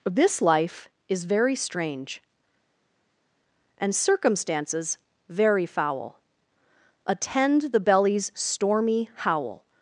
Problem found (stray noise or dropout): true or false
false